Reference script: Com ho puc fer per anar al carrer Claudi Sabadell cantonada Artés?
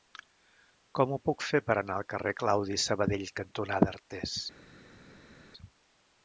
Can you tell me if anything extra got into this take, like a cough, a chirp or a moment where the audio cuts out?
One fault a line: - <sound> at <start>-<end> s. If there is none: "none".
none